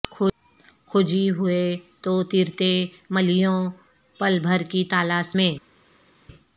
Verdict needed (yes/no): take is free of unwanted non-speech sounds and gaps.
yes